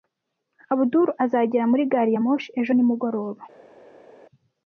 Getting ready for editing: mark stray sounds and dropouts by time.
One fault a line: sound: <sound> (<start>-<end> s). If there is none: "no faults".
no faults